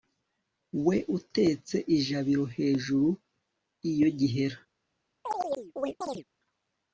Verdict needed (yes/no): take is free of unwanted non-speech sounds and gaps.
no